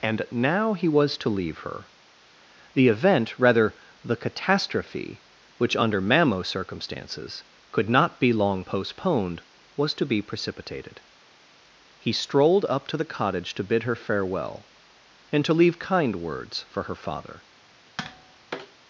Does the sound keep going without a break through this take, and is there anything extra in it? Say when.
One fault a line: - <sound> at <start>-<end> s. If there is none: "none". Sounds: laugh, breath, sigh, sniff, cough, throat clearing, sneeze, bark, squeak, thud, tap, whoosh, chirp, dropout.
- tap at 18.0-18.8 s